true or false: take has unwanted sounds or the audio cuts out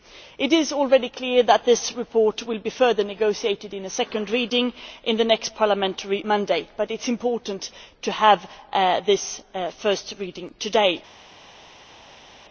false